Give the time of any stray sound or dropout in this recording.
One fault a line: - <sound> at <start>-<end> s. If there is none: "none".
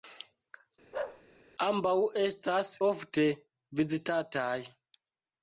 - bark at 0.9-1.2 s